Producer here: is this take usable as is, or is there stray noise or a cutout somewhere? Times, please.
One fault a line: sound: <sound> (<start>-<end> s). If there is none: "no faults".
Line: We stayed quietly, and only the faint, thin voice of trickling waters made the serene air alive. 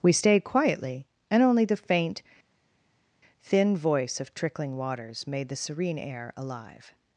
no faults